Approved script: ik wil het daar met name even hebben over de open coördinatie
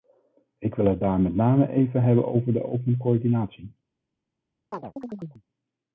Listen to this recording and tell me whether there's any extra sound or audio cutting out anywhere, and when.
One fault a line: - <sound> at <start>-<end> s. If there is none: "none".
- chirp at 4.7-5.4 s